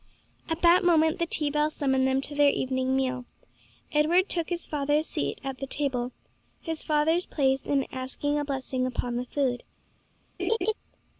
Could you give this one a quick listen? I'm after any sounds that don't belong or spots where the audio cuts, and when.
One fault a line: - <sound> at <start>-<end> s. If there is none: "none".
- laugh at 10.4-10.7 s